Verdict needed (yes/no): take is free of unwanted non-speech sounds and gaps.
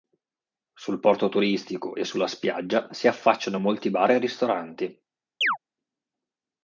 no